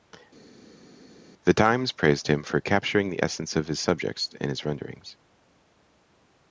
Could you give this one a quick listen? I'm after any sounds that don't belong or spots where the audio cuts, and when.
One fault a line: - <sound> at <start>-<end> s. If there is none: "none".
none